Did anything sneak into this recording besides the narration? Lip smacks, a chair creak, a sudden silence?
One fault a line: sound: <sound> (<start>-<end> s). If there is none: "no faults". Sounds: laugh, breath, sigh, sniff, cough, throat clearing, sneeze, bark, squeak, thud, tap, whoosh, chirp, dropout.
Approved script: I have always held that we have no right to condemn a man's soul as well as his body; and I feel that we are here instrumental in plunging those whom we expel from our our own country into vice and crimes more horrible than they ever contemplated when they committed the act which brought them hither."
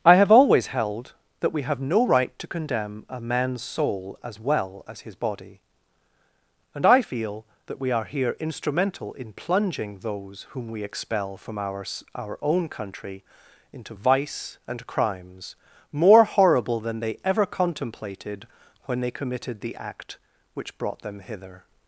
no faults